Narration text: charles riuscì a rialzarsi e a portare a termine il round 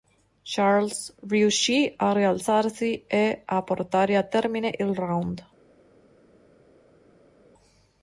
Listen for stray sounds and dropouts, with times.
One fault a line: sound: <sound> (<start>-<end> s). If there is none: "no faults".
no faults